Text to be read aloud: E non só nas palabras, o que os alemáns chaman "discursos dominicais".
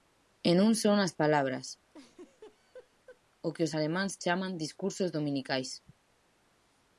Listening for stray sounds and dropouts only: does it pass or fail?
fail